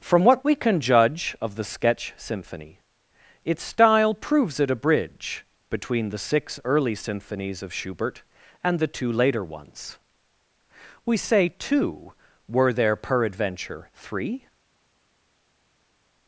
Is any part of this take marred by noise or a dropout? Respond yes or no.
no